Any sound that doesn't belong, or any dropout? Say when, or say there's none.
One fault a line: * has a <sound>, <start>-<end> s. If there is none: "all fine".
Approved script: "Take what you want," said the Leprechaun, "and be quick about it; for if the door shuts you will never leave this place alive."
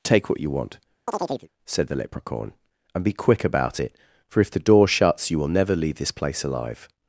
* has a chirp, 1.1-1.5 s